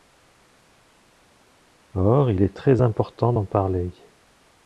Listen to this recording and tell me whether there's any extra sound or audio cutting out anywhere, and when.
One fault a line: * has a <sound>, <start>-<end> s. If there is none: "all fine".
all fine